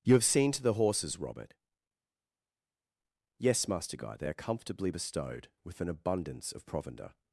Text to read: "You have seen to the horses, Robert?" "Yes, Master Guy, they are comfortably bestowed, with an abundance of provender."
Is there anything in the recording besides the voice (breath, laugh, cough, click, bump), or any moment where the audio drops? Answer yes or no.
no